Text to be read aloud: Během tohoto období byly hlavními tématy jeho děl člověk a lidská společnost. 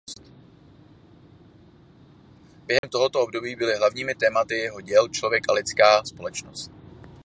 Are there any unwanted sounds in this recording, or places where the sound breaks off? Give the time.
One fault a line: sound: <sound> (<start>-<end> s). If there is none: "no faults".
sound: dropout (2.8-2.8 s)